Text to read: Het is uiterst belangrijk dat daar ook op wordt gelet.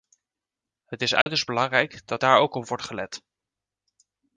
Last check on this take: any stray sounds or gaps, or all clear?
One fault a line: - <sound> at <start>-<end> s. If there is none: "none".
- dropout at 1.2-1.3 s